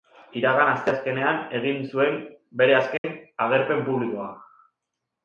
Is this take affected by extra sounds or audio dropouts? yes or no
yes